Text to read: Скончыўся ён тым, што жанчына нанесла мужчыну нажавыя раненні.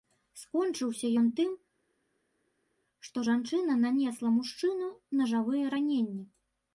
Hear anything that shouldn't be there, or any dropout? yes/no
no